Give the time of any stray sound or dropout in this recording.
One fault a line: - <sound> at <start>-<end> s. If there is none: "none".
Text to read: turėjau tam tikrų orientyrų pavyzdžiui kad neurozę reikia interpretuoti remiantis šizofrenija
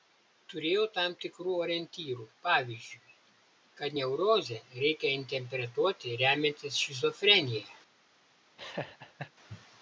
- laugh at 8.6-9.3 s